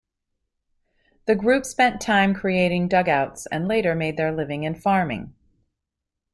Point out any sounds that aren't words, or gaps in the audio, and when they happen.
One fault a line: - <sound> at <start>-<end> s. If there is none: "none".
none